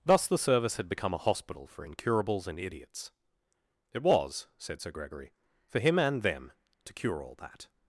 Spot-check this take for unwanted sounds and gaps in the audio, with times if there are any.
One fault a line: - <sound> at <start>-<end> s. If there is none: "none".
none